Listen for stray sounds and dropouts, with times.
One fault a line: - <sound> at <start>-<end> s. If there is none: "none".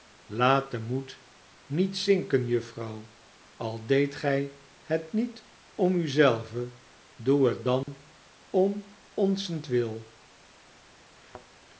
- dropout at 7.8-7.9 s
- thud at 11.1-11.5 s